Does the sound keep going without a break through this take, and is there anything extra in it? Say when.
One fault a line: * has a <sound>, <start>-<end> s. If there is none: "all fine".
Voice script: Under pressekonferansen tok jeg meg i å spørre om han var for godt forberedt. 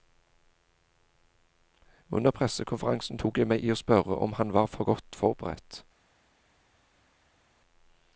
all fine